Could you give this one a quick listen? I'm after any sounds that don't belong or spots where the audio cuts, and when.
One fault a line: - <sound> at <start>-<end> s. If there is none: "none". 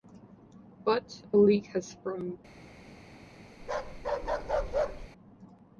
- bark at 3.6-5.1 s